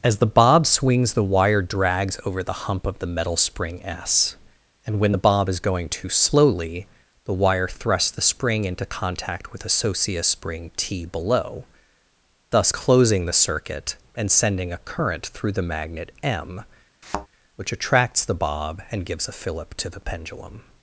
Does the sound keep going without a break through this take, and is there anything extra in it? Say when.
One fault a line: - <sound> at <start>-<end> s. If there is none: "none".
- thud at 17.0-17.3 s